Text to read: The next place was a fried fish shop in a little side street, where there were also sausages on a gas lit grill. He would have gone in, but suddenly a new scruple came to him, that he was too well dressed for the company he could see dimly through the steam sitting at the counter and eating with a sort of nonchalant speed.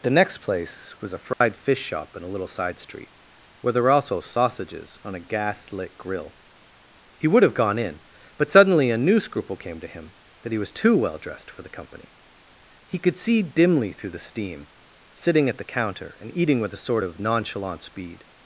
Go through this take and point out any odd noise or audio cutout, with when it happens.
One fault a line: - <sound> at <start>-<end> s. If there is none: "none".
- dropout at 1.3-1.4 s